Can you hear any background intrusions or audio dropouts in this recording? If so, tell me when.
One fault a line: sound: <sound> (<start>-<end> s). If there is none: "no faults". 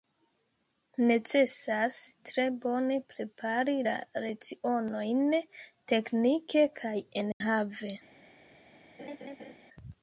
sound: dropout (7.3-7.4 s)
sound: laugh (9.0-9.5 s)